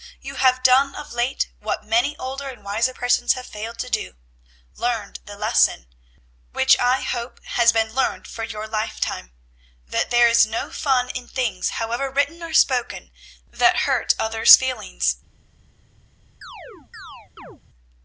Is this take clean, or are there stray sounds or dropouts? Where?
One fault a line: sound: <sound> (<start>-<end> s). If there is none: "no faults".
sound: chirp (16.4-17.6 s)